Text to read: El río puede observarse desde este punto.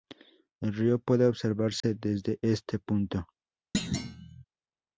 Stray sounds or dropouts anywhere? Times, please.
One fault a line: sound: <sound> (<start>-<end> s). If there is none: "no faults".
sound: dropout (1.8-1.8 s)
sound: thud (3.7-4.4 s)